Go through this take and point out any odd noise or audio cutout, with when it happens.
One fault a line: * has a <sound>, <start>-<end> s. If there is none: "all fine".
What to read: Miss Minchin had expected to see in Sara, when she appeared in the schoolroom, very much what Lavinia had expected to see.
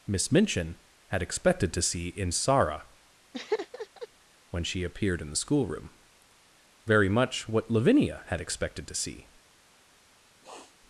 * has a laugh, 3.3-4.1 s
* has a sniff, 10.4-10.8 s